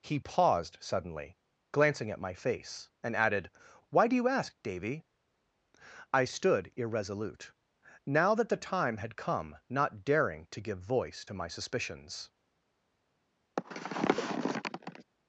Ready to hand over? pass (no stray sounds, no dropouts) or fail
fail